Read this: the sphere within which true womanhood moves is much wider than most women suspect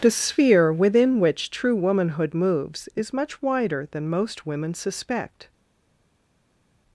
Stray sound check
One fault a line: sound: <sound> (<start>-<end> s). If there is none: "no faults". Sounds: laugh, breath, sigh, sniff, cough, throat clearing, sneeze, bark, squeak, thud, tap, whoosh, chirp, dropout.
no faults